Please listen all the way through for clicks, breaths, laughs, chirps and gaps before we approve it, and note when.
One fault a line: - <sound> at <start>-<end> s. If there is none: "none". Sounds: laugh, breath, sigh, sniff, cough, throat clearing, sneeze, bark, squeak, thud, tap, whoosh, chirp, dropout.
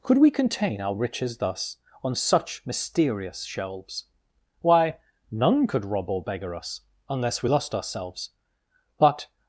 none